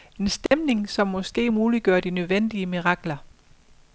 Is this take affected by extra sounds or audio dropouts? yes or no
yes